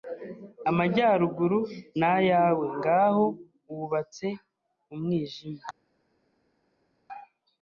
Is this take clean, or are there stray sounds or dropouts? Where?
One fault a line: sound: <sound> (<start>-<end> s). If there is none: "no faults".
no faults